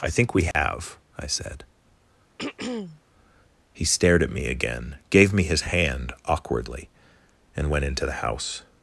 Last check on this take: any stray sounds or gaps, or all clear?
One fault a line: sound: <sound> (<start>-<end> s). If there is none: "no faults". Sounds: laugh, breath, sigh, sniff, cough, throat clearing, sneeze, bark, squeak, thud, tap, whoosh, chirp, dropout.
sound: dropout (0.5-0.5 s)
sound: throat clearing (2.4-3.0 s)